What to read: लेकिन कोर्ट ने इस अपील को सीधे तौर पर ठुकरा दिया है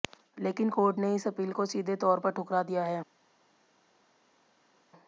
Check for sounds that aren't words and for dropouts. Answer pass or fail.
pass